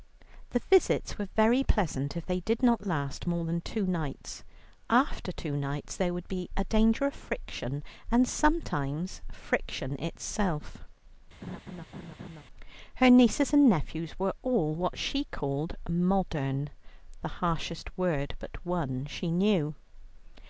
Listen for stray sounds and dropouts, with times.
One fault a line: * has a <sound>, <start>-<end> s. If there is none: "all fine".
* has a laugh, 11.4-12.4 s